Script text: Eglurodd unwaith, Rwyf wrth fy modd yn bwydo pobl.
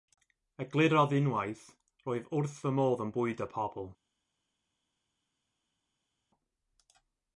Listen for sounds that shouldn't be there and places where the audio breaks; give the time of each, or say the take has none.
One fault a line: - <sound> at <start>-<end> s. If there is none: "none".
none